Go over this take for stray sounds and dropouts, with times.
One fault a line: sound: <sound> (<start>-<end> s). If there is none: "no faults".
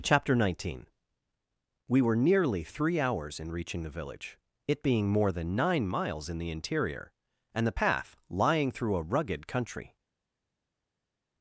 no faults